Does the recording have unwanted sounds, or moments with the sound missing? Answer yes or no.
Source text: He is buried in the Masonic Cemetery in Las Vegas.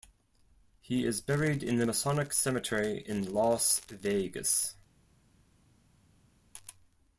no